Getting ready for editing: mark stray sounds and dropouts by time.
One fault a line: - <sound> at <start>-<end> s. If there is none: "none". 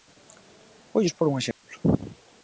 - dropout at 1.5-1.6 s